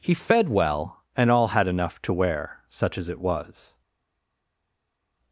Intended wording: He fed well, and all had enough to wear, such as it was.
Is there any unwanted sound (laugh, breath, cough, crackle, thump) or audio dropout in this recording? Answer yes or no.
no